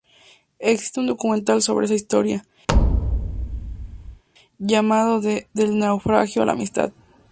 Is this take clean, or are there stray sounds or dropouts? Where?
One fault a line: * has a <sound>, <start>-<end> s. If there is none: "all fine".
* has a thud, 2.7-4.2 s